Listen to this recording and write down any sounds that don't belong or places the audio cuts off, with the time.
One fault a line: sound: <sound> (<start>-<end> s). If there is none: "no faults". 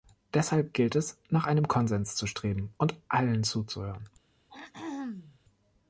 sound: throat clearing (4.5-5.4 s)